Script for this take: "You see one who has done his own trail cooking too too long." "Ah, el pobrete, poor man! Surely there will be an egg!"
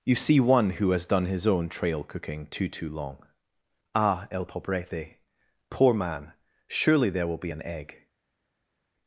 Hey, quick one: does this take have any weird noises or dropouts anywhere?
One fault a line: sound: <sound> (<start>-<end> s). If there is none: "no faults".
no faults